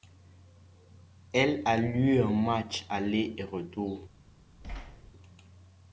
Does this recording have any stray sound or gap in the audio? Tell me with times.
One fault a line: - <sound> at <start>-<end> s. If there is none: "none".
- thud at 4.6-5.1 s